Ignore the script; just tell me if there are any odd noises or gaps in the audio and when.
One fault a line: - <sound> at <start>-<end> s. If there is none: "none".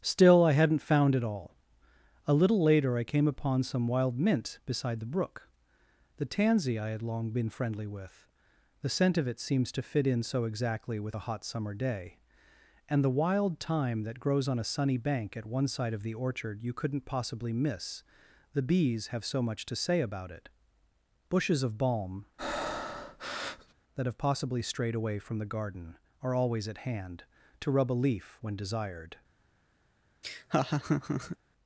- breath at 22.4-23.7 s
- laugh at 30.2-31.4 s